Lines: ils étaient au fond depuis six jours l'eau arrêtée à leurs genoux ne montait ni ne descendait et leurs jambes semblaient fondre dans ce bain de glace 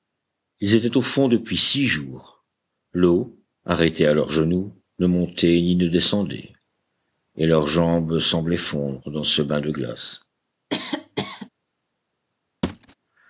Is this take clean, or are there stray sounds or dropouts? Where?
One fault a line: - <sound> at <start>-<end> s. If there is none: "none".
- cough at 10.7-11.5 s
- thud at 12.6-12.9 s